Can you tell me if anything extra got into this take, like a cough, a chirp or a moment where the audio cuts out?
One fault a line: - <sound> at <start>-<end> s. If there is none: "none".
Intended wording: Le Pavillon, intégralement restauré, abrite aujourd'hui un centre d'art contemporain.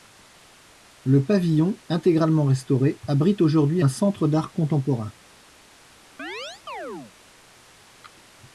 - chirp at 6.2-7.1 s